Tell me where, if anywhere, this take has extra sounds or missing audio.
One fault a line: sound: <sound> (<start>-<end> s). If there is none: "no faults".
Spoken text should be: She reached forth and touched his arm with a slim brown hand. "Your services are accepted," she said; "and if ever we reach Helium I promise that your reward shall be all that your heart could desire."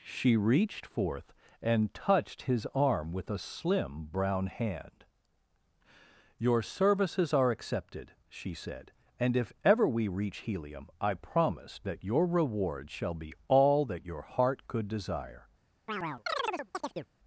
sound: chirp (15.9-17.1 s)